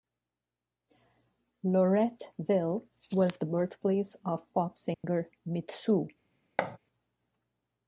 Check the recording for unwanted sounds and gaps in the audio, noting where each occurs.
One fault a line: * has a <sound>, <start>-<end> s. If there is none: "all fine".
* has a dropout, 4.9-5.0 s
* has a thud, 6.6-6.8 s